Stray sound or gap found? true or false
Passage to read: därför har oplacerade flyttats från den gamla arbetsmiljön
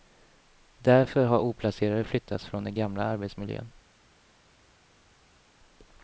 false